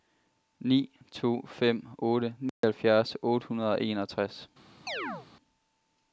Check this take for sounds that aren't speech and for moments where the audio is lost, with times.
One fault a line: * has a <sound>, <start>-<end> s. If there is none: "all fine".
* has a dropout, 2.5-2.6 s
* has a chirp, 4.9-5.3 s